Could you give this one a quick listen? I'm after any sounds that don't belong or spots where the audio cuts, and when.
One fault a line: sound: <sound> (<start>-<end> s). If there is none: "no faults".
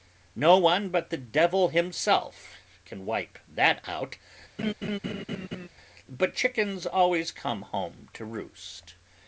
sound: laugh (4.6-5.7 s)